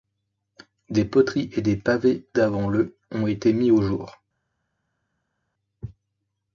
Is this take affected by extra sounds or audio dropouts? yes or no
no